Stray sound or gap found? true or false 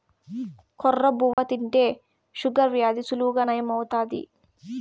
true